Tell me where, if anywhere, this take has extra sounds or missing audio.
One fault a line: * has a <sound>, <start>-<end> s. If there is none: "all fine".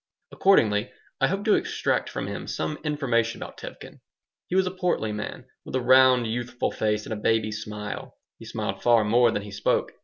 all fine